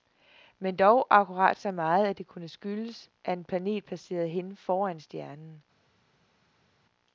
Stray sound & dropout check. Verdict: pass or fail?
pass